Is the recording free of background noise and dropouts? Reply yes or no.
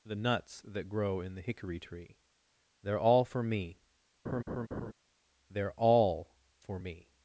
no